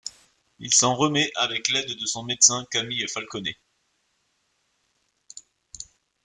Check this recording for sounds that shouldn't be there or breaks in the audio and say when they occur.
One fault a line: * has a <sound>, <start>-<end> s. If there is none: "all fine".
all fine